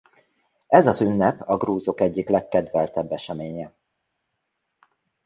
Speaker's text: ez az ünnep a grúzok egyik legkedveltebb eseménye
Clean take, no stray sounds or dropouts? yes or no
yes